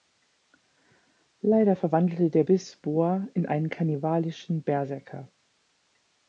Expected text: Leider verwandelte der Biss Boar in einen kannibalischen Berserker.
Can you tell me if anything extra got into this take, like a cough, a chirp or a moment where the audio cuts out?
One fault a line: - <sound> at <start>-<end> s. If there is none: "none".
none